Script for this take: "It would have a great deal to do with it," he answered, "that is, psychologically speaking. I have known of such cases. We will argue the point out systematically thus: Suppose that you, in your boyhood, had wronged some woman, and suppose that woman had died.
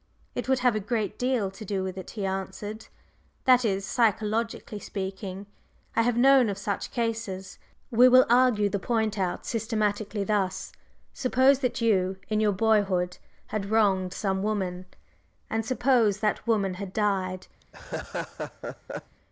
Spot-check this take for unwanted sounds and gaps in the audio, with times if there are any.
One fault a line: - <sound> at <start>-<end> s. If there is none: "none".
- laugh at 17.6-19.2 s